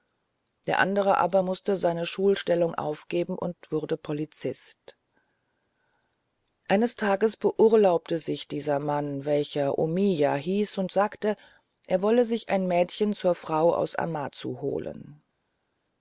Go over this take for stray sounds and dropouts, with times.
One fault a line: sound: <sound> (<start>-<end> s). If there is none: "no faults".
no faults